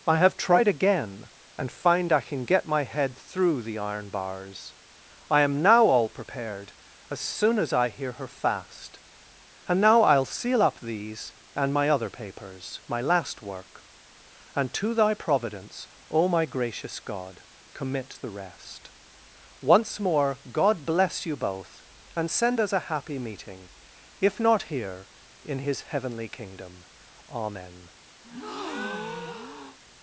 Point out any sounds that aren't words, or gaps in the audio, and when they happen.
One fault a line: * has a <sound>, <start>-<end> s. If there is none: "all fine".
* has a breath, 28.2-29.8 s